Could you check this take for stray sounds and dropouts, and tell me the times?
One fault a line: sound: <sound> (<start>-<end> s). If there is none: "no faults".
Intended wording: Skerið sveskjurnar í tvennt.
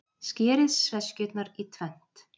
no faults